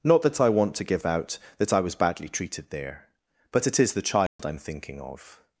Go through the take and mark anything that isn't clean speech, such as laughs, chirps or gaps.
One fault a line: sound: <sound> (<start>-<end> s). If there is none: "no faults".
sound: dropout (4.3-4.4 s)